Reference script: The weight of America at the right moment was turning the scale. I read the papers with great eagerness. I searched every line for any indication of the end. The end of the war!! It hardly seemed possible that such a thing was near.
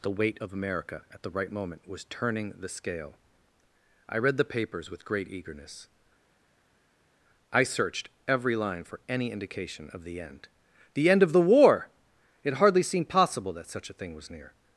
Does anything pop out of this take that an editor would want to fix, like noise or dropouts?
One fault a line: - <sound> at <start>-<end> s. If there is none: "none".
none